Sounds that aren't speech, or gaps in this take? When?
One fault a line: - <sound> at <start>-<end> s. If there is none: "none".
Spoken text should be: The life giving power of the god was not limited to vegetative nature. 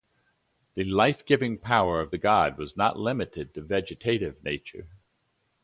none